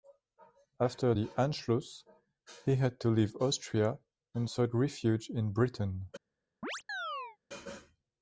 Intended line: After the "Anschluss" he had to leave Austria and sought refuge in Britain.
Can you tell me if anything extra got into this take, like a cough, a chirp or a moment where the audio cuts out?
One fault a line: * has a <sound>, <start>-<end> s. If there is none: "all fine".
* has a chirp, 6.6-7.4 s